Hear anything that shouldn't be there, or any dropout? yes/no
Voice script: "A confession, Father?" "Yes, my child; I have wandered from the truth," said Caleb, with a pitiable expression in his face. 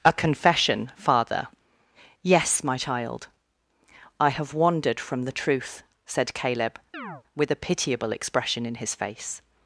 yes